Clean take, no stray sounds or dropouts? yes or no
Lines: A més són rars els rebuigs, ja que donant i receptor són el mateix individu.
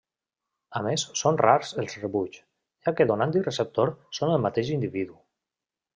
yes